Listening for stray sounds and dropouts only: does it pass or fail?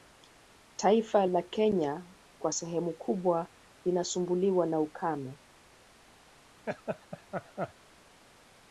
fail